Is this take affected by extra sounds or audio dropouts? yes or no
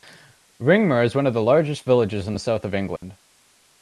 yes